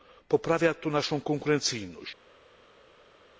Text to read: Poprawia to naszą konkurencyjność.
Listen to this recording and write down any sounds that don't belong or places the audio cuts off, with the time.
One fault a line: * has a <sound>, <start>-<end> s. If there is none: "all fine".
all fine